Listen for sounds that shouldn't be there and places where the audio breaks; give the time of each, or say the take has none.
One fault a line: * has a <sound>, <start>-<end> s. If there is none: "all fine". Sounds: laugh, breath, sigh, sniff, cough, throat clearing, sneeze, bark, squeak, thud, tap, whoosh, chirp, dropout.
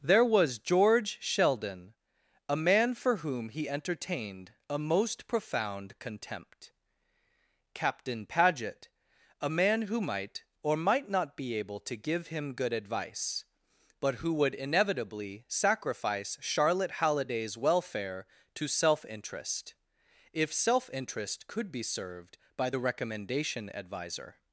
all fine